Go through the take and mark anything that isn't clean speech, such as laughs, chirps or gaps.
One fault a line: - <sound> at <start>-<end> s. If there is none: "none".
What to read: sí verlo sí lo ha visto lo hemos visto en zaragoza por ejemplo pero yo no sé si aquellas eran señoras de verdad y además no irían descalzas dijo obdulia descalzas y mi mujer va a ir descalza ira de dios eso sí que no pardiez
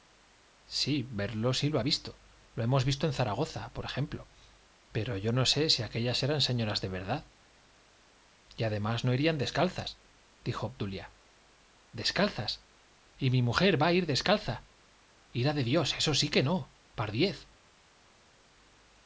none